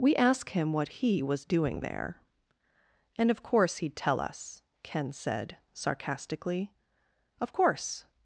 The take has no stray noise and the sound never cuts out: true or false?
true